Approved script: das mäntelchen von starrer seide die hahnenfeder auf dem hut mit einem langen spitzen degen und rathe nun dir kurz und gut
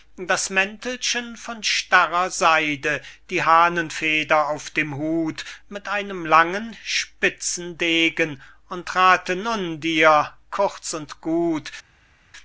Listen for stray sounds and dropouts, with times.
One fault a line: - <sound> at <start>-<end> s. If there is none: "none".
none